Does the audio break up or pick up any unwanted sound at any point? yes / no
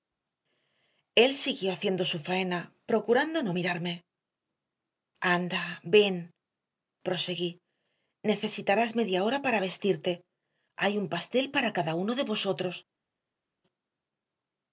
no